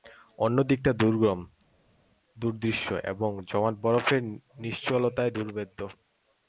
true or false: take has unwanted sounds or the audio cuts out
false